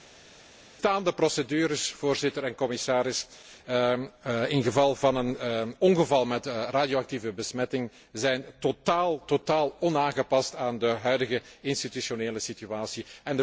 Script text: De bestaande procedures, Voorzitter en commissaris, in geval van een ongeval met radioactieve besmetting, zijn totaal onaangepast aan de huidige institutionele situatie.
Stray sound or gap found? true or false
false